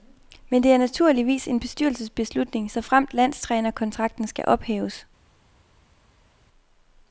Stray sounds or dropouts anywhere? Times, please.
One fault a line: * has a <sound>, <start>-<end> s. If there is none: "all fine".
all fine